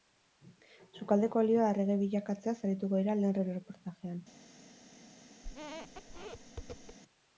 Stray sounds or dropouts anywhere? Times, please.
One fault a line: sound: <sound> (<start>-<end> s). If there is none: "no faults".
sound: squeak (5.4-7.0 s)